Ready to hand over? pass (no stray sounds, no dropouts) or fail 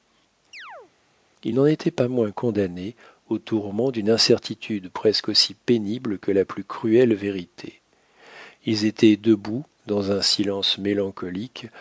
fail